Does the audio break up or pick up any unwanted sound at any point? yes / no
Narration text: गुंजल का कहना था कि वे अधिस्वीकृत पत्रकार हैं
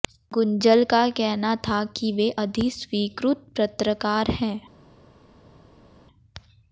no